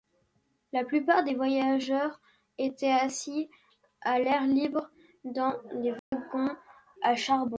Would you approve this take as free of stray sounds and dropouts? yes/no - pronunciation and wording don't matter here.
no